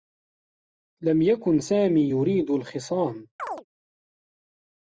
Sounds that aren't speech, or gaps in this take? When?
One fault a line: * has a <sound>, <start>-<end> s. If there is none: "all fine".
* has a chirp, 3.4-3.6 s